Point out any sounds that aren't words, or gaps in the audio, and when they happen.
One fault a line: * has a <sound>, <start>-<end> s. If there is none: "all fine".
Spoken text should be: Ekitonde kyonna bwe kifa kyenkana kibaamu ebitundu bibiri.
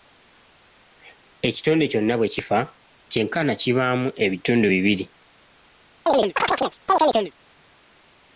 * has a chirp, 6.1-7.3 s